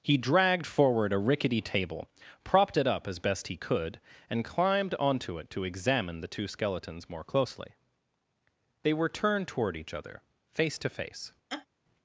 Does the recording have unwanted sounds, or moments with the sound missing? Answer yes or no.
yes